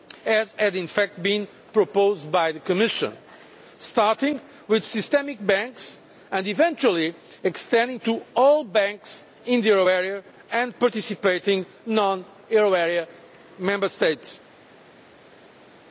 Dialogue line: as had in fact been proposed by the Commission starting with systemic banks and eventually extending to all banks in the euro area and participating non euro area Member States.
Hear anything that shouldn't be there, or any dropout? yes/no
no